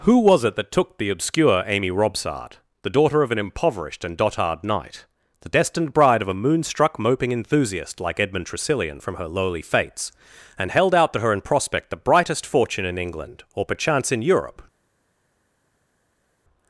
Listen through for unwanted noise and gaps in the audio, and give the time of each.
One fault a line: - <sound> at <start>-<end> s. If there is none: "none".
none